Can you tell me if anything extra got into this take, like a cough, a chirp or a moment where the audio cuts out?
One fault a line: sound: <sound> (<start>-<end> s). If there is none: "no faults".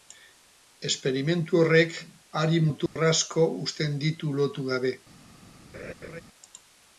sound: dropout (2.9-3.0 s)
sound: laugh (5.7-6.2 s)